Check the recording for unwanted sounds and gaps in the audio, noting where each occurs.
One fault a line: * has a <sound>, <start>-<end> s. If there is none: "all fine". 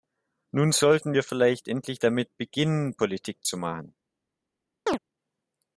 * has a chirp, 4.9-5.0 s